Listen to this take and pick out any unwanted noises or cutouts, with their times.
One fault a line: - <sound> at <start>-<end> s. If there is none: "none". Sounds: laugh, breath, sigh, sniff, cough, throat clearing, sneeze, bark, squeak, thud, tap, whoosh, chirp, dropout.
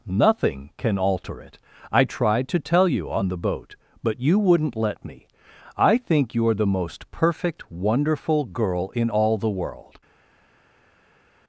none